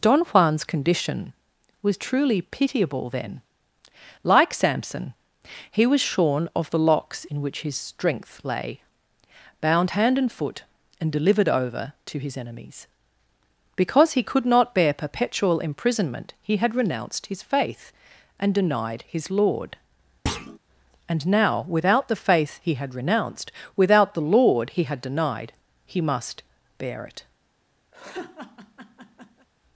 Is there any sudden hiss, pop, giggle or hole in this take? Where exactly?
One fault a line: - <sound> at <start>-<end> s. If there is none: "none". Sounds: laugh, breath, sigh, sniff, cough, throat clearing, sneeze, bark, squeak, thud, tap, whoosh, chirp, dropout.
- thud at 20.3-20.6 s
- laugh at 27.9-29.5 s